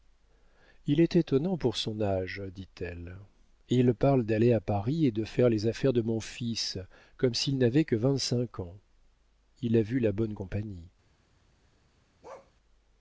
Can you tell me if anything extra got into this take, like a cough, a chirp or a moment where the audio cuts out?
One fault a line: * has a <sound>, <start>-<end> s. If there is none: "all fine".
* has a bark, 12.2-12.5 s